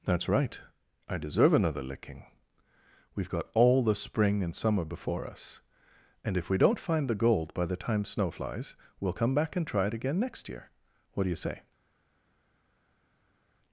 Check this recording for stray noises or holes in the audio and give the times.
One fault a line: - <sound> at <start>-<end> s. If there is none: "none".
none